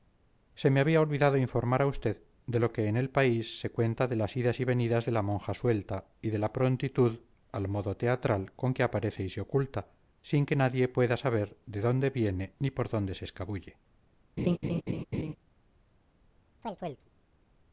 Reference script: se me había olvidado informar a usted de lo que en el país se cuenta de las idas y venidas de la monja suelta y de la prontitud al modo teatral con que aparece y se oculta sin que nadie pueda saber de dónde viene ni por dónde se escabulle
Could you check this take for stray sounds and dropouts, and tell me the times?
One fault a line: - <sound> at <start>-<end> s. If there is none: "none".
- laugh at 14.4-15.4 s
- chirp at 16.6-17.1 s